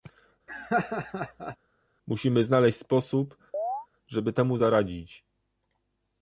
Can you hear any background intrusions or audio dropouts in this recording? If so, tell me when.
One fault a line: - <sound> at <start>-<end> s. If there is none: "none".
- laugh at 0.5-1.6 s
- chirp at 3.5-3.9 s